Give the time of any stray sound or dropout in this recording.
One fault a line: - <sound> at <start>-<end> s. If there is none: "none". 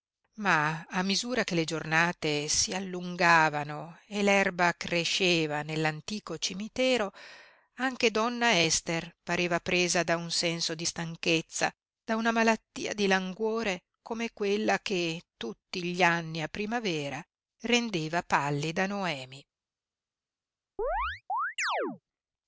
- chirp at 20.8-22.0 s